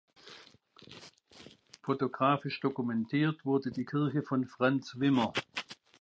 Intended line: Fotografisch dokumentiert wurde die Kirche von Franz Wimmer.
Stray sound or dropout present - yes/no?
no